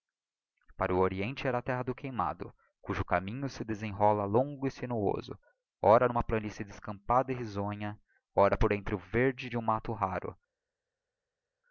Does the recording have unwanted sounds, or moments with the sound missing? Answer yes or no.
no